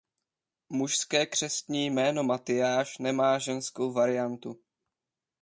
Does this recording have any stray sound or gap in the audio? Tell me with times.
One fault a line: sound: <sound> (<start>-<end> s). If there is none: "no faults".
no faults